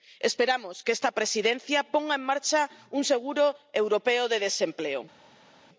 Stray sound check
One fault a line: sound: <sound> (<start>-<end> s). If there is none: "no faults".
no faults